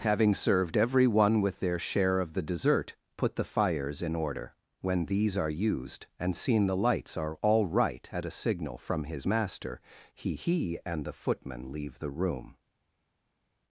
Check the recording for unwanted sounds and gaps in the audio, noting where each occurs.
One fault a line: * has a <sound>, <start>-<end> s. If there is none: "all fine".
all fine